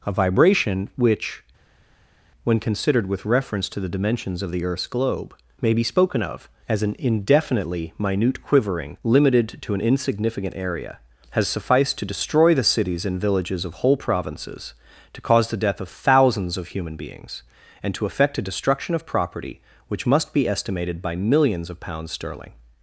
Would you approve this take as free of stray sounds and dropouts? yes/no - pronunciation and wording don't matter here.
yes